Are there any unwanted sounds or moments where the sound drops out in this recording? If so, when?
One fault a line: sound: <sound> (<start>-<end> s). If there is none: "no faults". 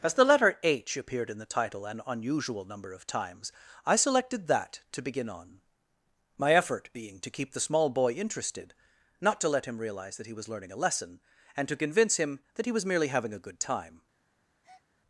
sound: breath (14.6-14.9 s)